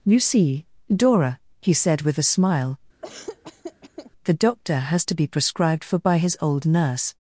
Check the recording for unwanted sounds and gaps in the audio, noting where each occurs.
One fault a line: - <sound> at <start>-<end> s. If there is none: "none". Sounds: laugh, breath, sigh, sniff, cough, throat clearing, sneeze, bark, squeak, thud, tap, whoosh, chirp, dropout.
- laugh at 3.0-4.1 s